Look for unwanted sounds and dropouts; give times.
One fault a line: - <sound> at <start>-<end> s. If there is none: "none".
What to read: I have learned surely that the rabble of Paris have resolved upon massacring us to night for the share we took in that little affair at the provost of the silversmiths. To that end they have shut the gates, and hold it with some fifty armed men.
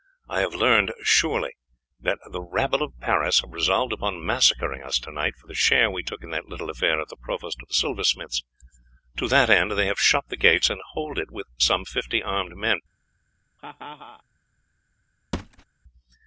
- laugh at 13.6-14.2 s
- thud at 15.3-15.6 s